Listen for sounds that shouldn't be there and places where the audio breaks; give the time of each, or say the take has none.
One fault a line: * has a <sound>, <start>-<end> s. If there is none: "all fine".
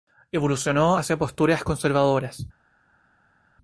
all fine